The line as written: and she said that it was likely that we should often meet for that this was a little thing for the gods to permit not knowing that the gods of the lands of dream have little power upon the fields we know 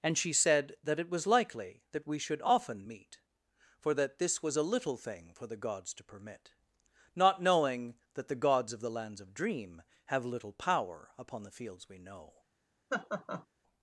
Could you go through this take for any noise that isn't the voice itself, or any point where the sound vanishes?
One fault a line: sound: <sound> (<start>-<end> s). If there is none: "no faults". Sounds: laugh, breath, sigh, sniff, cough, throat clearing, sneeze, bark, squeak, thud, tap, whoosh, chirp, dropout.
sound: laugh (12.9-13.5 s)